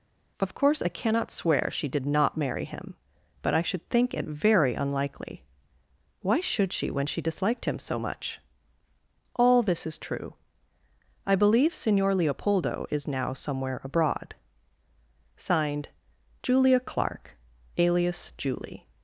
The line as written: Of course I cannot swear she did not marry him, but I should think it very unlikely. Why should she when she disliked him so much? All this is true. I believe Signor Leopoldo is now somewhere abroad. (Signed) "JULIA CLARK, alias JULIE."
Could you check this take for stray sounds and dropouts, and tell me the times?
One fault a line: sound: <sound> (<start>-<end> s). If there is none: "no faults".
no faults